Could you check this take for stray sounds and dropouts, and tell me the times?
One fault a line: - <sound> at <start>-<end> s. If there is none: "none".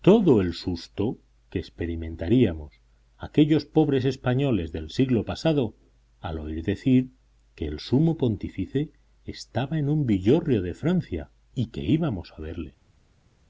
none